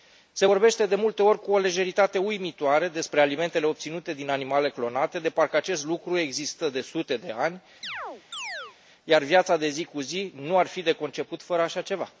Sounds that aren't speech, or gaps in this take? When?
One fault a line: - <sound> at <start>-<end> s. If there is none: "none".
- chirp at 7.8-8.8 s